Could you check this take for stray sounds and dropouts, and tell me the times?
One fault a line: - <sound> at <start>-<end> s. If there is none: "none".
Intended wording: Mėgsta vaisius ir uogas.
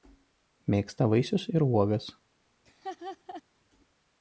- laugh at 2.7-3.4 s